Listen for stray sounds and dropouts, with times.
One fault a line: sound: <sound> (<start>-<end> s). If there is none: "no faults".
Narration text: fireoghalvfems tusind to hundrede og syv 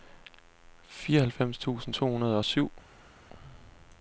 no faults